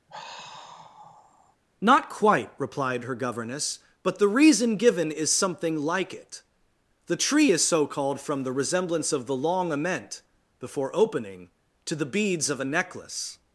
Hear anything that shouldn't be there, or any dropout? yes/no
yes